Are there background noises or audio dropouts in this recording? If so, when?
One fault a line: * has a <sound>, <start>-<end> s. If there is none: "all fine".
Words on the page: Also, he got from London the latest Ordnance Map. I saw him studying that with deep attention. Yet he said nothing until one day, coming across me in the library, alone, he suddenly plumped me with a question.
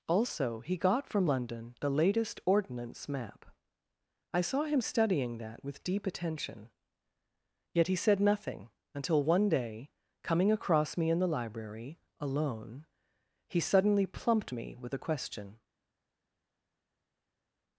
all fine